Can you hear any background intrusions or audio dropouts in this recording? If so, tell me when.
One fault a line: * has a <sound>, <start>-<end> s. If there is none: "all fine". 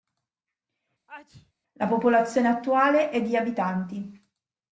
* has a sneeze, 1.1-1.5 s